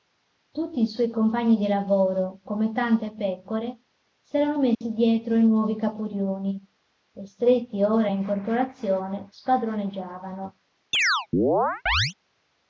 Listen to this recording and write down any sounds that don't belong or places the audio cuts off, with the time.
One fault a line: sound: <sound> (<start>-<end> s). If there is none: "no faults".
sound: dropout (4.7-4.8 s)
sound: chirp (10.9-12.1 s)